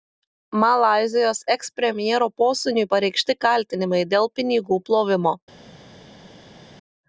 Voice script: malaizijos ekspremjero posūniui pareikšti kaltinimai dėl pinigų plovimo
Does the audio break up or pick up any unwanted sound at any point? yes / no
no